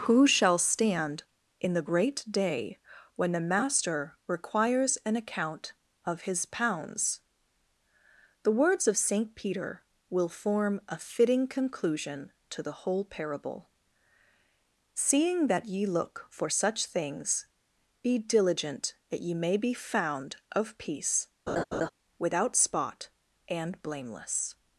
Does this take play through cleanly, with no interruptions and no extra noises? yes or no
no